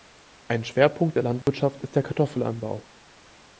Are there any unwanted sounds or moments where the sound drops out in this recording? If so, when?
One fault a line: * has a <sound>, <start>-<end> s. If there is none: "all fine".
* has a dropout, 1.4-1.5 s